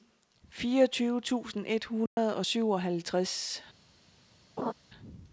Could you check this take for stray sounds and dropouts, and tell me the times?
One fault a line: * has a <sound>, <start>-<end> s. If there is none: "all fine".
* has a dropout, 2.1-2.2 s
* has a laugh, 4.6-4.7 s